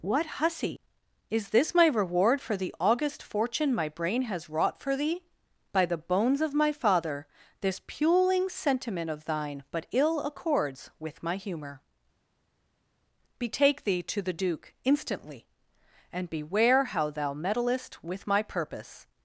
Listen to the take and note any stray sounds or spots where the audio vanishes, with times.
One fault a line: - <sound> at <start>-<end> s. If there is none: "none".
none